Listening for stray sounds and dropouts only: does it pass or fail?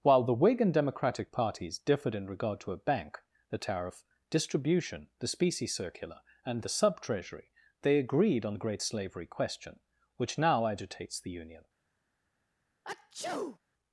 fail